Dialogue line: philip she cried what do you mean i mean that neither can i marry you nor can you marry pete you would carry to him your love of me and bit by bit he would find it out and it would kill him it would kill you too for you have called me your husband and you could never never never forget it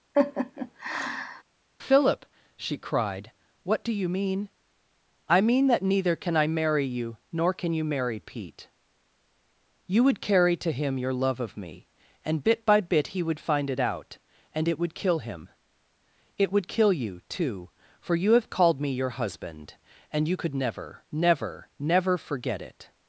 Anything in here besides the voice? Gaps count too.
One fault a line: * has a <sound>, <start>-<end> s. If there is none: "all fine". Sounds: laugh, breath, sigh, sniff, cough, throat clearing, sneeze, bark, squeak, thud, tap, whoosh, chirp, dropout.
* has a laugh, 0.1-1.4 s